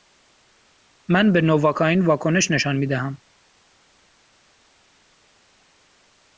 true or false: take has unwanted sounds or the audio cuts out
false